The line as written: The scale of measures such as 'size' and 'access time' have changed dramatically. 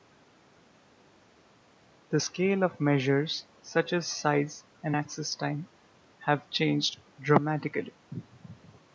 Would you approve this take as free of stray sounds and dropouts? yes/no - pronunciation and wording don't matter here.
yes